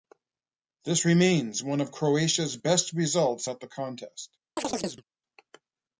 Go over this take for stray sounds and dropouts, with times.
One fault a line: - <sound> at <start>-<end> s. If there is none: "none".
- chirp at 4.6-5.0 s